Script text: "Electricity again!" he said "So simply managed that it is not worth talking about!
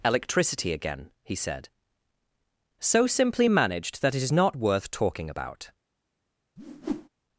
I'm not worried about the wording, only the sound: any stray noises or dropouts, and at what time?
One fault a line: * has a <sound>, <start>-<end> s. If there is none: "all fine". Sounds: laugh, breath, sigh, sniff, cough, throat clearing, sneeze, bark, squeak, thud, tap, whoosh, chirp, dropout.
* has a whoosh, 6.6-7.1 s